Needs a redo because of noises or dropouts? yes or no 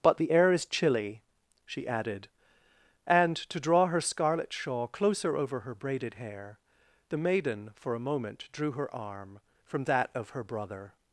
no